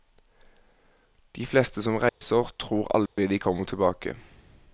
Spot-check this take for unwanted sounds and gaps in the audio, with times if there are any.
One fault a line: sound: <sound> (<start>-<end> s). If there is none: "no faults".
sound: dropout (2.1-2.2 s)
sound: dropout (3.1-3.2 s)